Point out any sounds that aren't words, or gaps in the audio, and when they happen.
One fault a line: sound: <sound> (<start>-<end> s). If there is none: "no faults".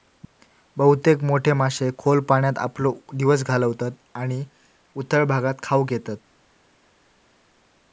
no faults